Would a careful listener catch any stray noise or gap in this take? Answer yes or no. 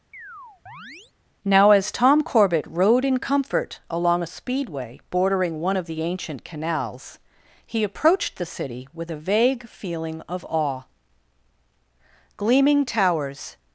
yes